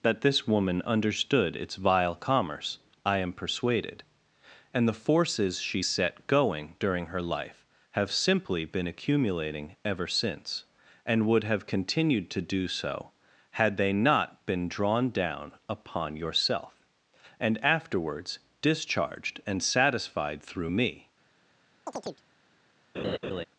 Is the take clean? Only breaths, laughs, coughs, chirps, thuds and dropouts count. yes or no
no